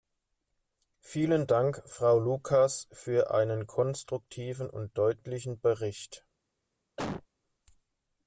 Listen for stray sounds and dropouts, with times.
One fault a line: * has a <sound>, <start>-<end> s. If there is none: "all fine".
* has a cough, 7.0-7.3 s